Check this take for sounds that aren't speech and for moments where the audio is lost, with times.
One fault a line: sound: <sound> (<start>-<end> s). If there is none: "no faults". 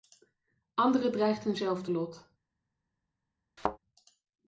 sound: thud (3.6-3.8 s)